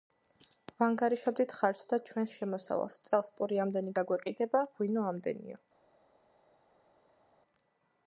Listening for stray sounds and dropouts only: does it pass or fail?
pass